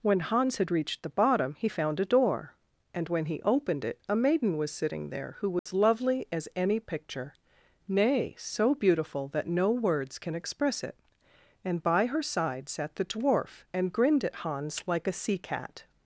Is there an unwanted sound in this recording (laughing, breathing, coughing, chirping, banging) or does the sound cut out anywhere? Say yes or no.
yes